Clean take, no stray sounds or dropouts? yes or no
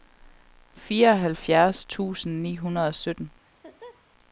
no